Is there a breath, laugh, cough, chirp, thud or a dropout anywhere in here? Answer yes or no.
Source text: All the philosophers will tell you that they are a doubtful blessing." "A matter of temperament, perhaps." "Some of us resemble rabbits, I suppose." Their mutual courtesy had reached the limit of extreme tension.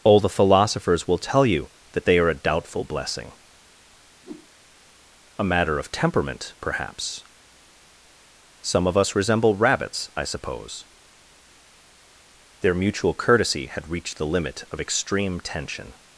yes